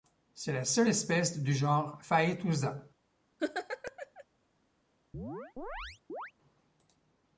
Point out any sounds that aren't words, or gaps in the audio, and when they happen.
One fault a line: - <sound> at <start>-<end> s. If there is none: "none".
- laugh at 3.4-4.2 s
- chirp at 5.1-6.3 s